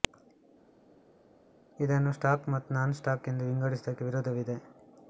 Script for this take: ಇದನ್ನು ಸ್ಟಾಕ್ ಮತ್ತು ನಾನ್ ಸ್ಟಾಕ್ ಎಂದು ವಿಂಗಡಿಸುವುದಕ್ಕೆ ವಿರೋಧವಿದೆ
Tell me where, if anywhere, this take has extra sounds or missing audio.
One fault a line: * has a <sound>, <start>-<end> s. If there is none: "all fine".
all fine